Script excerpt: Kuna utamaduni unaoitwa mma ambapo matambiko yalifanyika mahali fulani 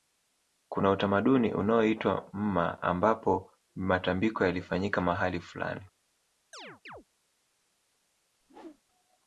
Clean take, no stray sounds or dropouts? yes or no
no